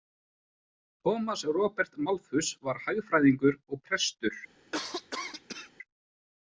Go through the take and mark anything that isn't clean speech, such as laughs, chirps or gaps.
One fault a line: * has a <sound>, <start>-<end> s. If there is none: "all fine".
* has a cough, 4.7-5.7 s